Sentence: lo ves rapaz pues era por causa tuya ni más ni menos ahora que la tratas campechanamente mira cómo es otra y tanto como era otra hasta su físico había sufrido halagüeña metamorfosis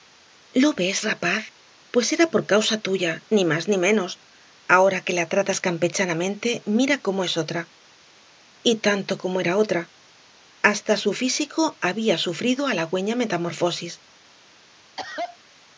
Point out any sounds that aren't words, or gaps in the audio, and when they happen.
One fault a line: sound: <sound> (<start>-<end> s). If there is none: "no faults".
sound: cough (15.0-15.4 s)